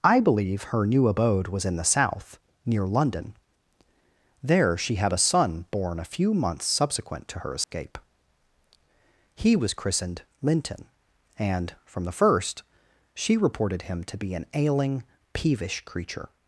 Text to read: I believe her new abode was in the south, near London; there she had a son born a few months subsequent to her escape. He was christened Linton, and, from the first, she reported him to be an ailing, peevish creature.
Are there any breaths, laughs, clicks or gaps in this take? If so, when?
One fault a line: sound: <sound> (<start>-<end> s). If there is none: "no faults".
sound: dropout (7.6-7.7 s)